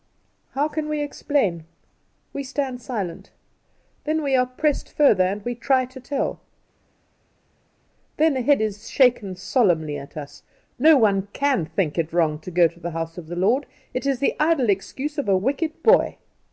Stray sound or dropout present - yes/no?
no